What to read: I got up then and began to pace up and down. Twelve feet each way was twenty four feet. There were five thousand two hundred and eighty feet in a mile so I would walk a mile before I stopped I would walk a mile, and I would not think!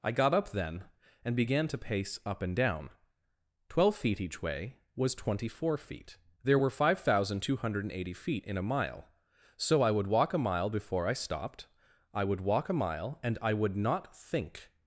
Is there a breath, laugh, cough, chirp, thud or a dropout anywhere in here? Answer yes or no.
no